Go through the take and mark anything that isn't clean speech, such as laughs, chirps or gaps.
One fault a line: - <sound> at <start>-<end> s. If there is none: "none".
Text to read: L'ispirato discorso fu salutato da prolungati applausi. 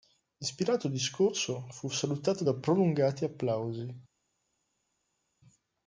none